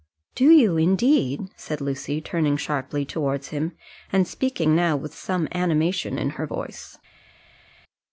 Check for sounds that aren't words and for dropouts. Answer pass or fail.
pass